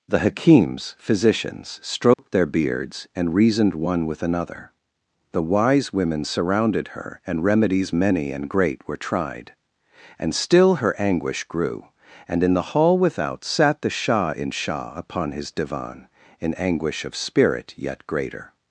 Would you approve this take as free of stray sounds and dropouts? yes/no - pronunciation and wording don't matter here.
no